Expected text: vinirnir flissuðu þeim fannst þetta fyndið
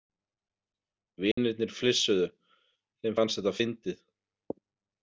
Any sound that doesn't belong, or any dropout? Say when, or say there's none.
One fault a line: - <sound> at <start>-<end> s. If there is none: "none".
- dropout at 1.3-1.4 s